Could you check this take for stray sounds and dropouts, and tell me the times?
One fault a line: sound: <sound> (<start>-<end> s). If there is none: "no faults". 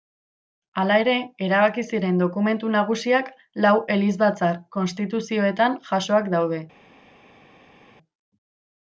no faults